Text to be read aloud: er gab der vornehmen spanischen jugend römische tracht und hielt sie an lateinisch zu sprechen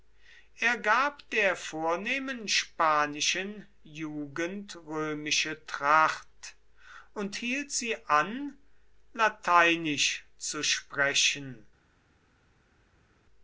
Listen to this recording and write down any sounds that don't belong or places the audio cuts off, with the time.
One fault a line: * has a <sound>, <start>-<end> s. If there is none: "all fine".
all fine